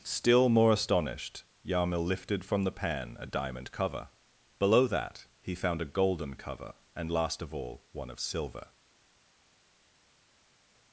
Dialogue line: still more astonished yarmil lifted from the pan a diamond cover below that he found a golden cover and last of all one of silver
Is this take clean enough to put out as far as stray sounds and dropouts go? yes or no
yes